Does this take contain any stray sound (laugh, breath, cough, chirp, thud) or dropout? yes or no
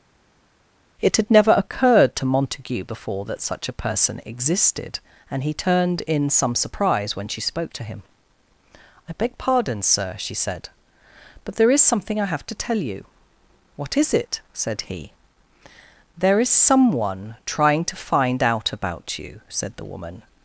no